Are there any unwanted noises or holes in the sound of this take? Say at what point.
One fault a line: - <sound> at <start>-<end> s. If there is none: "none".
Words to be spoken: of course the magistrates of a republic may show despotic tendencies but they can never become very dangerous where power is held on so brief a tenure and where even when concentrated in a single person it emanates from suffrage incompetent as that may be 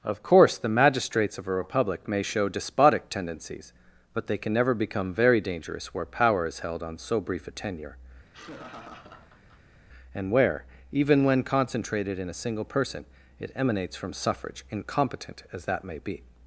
- laugh at 8.3-9.8 s